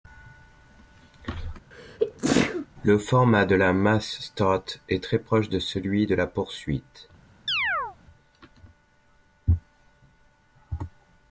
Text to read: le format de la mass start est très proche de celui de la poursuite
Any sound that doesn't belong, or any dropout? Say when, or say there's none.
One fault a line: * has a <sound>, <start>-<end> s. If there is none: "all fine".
* has a sneeze, 1.7-2.7 s
* has a chirp, 7.5-8.0 s